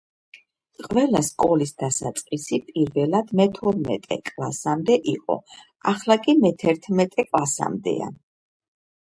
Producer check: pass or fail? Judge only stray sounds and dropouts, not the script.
pass